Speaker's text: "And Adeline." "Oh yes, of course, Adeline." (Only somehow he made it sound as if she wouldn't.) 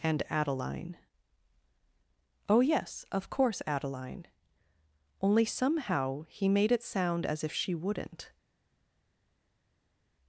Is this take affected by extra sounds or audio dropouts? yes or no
no